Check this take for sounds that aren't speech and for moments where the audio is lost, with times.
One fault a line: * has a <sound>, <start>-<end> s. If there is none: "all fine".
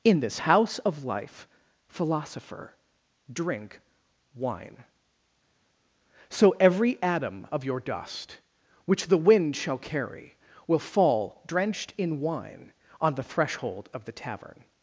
all fine